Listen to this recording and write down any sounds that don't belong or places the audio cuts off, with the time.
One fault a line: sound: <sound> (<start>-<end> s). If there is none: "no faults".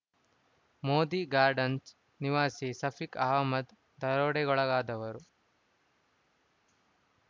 no faults